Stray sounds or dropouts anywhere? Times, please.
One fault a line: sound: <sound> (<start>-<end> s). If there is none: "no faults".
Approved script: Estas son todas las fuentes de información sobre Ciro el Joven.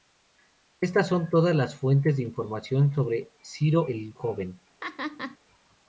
sound: laugh (4.8-5.4 s)